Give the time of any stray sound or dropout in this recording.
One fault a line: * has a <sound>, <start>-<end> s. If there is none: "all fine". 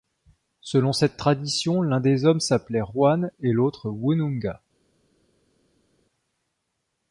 all fine